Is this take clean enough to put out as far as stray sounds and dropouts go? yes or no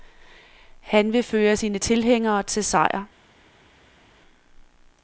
yes